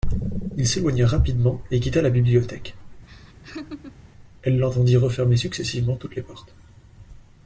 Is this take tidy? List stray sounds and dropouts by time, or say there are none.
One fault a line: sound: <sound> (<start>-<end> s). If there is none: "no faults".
sound: laugh (3.1-4.0 s)